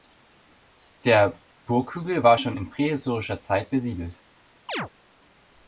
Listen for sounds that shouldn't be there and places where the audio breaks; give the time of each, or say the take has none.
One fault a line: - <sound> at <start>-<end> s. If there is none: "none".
- chirp at 4.7-4.9 s